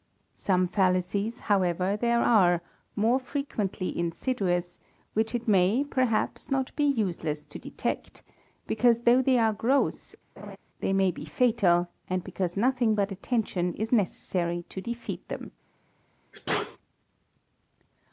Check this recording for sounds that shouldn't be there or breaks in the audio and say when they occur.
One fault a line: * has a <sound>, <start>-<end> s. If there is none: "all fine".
* has a laugh, 10.4-10.6 s
* has a sneeze, 16.3-16.8 s